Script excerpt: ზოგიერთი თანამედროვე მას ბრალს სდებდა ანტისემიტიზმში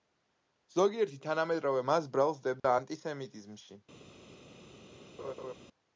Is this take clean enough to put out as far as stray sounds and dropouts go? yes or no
no